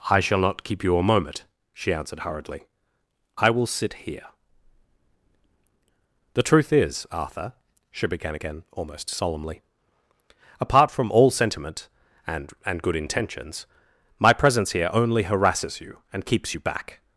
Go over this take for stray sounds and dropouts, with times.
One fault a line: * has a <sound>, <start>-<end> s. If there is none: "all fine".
all fine